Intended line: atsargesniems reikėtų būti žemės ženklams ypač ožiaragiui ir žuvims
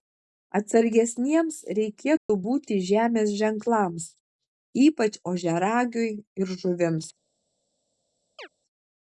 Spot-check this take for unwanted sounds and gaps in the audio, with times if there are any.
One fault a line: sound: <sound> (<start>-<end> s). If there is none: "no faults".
sound: dropout (2.2-2.3 s)
sound: chirp (8.4-8.5 s)